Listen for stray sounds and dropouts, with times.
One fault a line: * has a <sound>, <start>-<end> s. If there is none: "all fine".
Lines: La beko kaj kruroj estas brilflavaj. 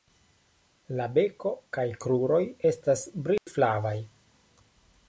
* has a dropout, 3.4-3.5 s